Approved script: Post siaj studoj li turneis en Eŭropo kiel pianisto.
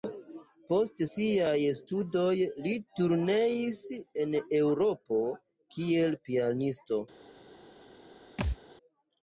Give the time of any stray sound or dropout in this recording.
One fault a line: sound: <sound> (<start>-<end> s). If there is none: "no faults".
sound: thud (8.4-8.6 s)